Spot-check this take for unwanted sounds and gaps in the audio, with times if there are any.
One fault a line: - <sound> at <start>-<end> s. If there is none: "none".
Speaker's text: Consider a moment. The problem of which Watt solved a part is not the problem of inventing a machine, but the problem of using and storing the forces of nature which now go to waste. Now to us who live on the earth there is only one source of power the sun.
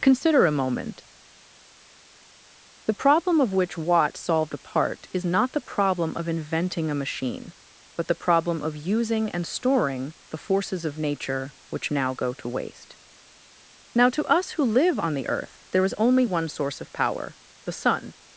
none